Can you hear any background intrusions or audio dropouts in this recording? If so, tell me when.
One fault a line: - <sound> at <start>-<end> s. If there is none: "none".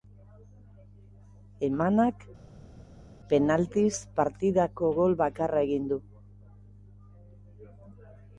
none